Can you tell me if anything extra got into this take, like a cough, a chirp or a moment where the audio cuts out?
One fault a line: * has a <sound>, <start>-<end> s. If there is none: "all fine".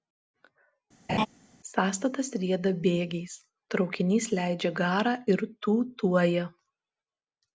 * has a laugh, 1.1-1.3 s